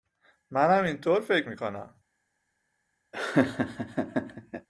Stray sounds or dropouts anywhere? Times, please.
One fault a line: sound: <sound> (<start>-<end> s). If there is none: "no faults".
sound: laugh (3.1-4.7 s)